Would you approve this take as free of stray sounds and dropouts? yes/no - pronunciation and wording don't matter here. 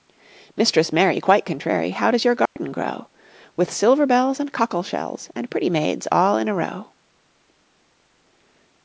no